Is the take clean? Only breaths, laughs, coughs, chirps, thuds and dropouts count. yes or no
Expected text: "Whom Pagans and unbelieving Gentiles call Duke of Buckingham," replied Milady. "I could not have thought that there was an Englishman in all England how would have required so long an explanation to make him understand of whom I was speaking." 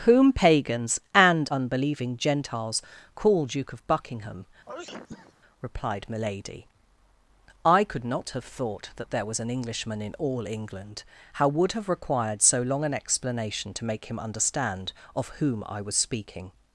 no